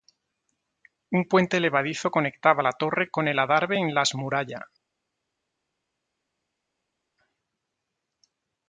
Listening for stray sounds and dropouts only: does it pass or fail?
pass